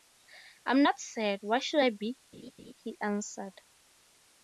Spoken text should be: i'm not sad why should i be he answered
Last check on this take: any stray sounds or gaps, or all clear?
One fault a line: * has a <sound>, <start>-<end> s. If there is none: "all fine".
* has a laugh, 2.3-2.7 s